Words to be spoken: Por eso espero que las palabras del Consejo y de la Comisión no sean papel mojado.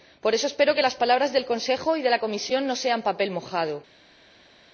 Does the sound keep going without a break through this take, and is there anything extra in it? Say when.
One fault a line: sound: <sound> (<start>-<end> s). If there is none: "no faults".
no faults